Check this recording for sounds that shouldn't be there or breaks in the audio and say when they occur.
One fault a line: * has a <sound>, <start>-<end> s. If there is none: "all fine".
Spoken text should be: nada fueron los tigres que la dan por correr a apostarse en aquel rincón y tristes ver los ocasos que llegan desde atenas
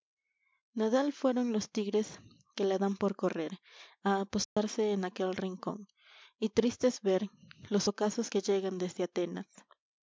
* has a dropout, 4.4-4.6 s